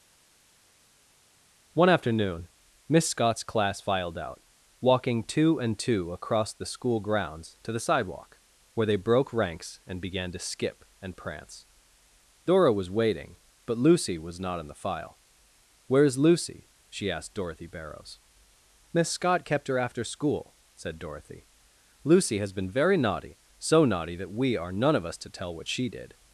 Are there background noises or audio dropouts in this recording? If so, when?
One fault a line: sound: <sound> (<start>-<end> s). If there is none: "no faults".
no faults